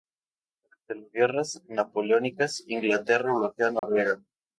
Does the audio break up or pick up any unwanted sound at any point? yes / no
yes